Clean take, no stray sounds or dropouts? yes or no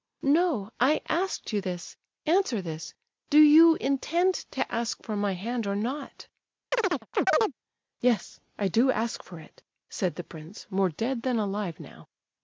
no